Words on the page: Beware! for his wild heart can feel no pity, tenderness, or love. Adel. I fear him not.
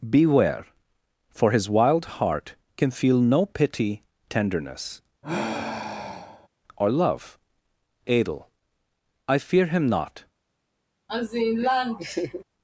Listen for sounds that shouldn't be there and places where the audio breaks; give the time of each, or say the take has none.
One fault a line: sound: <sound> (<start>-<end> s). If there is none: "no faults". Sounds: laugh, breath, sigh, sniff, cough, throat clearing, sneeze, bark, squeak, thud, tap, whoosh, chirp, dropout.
sound: sigh (5.2-6.5 s)
sound: laugh (11.1-12.4 s)